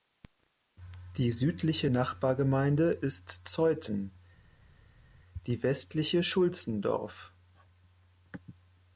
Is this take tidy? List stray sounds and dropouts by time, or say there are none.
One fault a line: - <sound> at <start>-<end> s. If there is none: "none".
none